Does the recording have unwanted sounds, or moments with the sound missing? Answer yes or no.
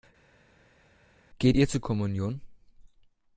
no